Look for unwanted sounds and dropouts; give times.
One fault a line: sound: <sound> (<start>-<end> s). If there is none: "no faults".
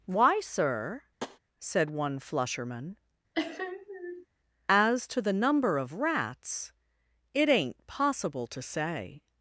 sound: tap (1.2-1.4 s)
sound: sniff (3.3-4.3 s)